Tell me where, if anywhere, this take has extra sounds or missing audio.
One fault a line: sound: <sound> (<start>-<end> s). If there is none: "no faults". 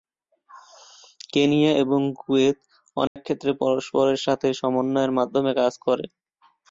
sound: dropout (3.1-3.2 s)